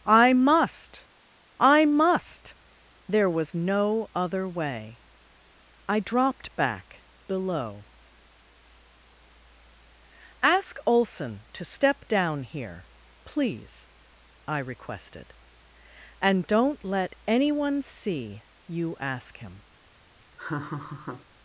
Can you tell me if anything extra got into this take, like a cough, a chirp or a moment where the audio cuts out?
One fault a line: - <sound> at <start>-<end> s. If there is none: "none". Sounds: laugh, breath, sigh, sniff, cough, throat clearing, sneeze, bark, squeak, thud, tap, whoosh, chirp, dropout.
- laugh at 20.4-21.3 s